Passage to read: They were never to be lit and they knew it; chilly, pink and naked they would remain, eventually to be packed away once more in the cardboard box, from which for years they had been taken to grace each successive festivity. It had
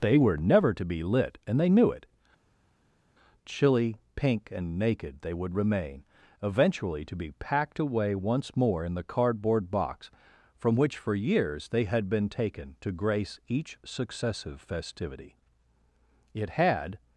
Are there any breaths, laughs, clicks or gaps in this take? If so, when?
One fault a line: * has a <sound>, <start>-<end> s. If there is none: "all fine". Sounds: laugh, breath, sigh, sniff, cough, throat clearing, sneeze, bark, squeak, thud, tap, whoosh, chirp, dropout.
all fine